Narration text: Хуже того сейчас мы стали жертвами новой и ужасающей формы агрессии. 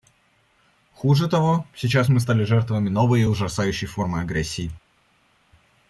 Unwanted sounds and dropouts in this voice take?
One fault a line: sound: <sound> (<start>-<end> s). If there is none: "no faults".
no faults